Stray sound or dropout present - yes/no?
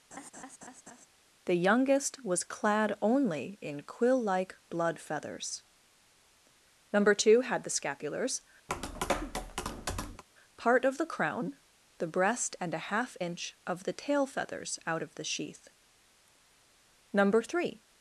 yes